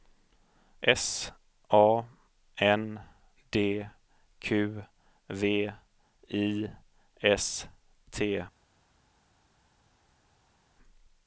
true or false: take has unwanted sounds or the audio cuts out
false